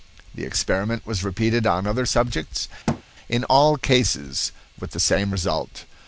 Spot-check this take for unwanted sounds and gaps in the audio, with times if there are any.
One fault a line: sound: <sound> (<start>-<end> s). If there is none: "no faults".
sound: thud (2.9-3.0 s)